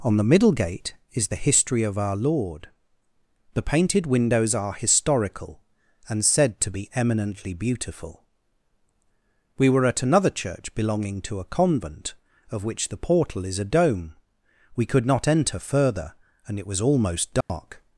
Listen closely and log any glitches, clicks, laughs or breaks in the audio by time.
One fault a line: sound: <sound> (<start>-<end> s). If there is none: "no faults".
sound: dropout (17.4-17.5 s)